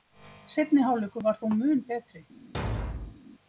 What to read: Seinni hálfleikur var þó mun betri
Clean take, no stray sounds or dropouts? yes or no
no